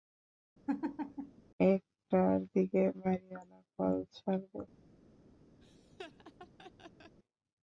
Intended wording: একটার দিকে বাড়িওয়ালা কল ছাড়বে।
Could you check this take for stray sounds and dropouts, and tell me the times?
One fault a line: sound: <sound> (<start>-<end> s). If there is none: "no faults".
sound: laugh (0.7-1.4 s)
sound: laugh (5.6-7.2 s)